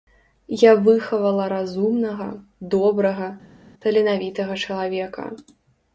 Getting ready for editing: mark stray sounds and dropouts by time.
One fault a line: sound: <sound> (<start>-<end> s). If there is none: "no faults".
no faults